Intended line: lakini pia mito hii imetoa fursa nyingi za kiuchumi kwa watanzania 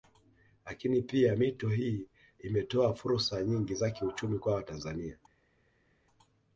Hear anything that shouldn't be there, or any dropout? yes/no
no